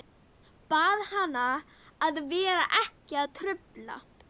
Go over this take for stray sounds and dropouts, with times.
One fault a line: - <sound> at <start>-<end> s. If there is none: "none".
none